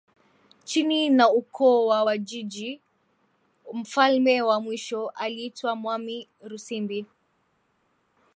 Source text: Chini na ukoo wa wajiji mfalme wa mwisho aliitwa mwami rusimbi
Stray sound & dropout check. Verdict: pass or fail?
pass